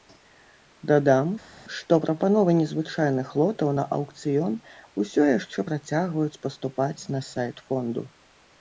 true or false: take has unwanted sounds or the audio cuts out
false